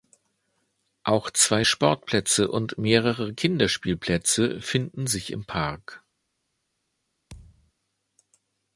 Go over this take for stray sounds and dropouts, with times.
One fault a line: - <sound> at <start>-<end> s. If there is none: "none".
- thud at 7.3-7.7 s